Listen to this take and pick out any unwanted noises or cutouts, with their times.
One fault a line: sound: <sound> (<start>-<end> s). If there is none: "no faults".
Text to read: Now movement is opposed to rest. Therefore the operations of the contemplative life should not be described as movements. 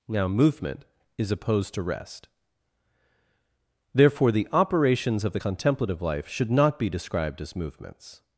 no faults